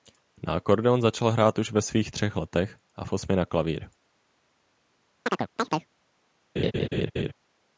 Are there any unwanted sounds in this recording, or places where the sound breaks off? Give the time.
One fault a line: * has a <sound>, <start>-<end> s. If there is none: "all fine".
* has a chirp, 5.3-5.9 s
* has a laugh, 6.6-7.3 s